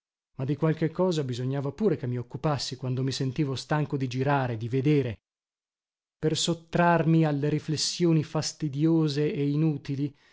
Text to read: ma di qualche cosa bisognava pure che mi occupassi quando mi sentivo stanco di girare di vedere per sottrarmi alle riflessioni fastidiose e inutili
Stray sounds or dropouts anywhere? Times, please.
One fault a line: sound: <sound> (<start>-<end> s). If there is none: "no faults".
no faults